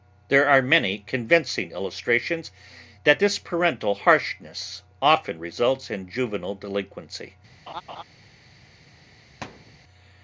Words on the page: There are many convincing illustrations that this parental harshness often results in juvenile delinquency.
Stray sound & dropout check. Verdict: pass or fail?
fail